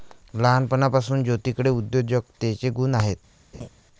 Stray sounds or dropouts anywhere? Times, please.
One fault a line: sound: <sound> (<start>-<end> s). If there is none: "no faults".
sound: laugh (3.5-3.7 s)